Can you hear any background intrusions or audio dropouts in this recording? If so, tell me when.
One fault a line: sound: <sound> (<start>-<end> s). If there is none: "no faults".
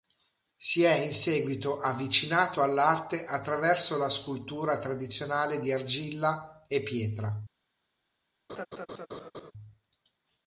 sound: laugh (8.5-9.5 s)